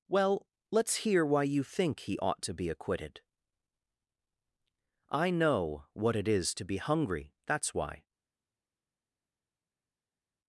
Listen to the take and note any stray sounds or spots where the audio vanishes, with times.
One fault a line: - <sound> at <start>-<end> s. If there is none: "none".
none